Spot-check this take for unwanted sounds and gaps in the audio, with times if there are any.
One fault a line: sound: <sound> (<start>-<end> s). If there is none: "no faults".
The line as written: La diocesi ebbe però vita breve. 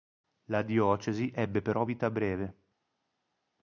no faults